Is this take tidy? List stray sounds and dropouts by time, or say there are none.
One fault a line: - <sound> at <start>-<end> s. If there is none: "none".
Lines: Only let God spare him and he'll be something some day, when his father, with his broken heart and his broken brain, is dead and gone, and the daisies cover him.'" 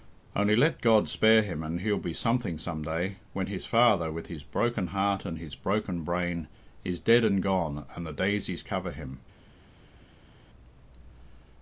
none